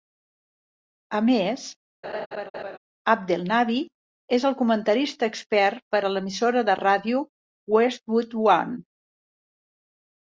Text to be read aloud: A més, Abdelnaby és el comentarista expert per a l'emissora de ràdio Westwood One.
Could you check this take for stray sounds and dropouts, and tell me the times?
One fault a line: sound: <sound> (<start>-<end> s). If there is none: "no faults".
sound: laugh (2.0-2.8 s)